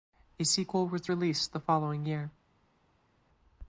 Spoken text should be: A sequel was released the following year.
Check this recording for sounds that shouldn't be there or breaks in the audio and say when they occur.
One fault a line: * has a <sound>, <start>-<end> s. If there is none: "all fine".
all fine